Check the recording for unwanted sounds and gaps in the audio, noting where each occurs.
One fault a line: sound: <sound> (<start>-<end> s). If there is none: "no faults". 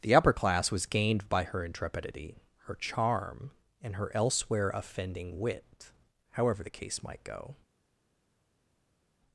no faults